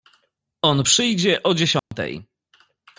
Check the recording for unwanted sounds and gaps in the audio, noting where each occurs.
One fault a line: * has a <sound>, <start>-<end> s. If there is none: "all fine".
* has a dropout, 1.8-1.9 s